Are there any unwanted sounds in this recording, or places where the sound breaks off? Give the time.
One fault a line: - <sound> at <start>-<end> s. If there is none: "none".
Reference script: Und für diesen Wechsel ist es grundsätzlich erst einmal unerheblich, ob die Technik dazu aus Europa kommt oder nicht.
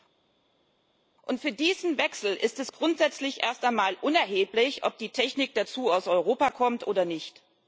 none